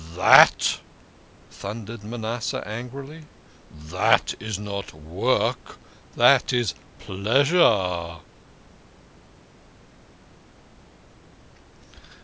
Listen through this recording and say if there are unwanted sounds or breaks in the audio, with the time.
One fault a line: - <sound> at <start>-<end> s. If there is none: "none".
none